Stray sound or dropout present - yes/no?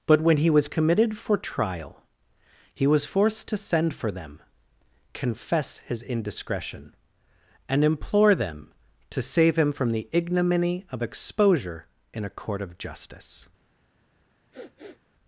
yes